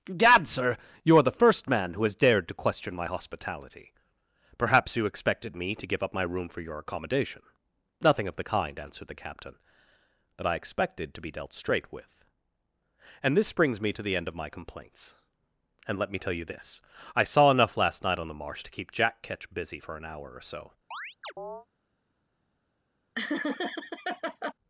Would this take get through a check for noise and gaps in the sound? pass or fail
fail